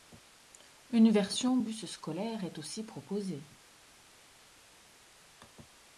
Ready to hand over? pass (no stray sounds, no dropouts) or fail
pass